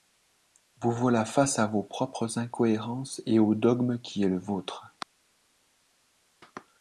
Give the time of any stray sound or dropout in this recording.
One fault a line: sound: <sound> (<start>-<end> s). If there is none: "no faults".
no faults